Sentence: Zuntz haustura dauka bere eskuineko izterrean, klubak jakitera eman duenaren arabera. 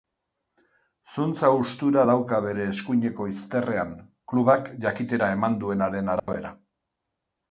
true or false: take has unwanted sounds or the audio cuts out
true